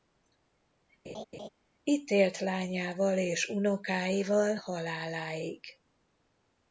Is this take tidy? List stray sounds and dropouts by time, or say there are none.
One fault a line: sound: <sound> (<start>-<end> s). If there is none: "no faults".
sound: laugh (1.0-1.5 s)